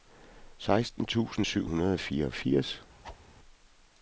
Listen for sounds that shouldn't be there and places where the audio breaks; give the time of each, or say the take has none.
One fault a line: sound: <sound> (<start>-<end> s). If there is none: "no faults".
sound: whoosh (3.0-3.2 s)